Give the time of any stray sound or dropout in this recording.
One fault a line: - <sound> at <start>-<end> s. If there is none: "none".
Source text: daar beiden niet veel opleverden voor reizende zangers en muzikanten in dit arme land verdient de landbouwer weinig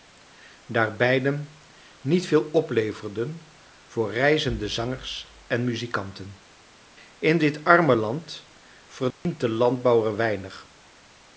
- dropout at 9.1-9.3 s